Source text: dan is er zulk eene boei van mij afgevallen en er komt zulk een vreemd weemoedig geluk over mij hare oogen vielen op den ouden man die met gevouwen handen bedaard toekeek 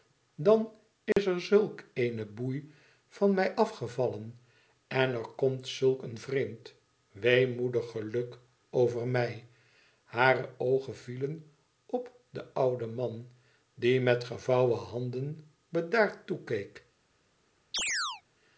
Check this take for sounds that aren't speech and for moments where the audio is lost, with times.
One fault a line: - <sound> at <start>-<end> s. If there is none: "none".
- dropout at 1.1-1.2 s
- chirp at 17.7-18.2 s